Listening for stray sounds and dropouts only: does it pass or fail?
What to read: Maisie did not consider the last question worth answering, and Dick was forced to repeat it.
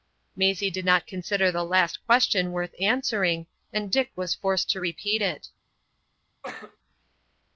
fail